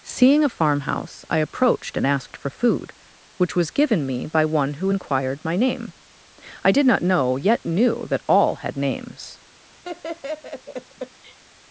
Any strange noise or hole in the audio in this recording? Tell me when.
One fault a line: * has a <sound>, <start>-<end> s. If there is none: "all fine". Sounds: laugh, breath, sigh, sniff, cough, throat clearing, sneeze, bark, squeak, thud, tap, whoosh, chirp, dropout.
* has a laugh, 9.8-11.4 s